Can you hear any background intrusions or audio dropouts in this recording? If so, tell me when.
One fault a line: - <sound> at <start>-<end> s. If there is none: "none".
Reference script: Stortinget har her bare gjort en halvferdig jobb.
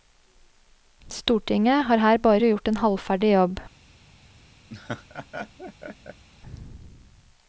- laugh at 4.7-6.2 s